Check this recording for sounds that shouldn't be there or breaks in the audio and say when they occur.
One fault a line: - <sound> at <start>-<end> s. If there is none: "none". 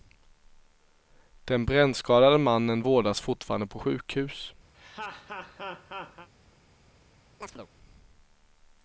- laugh at 4.7-6.3 s
- chirp at 7.4-7.7 s